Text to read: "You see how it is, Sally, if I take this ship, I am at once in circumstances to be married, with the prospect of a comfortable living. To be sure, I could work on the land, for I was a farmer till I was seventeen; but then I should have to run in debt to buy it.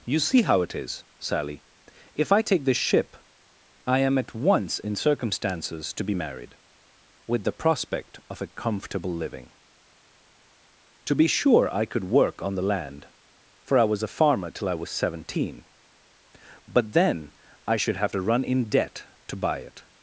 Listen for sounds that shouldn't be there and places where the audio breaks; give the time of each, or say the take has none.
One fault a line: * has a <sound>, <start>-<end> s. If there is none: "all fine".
all fine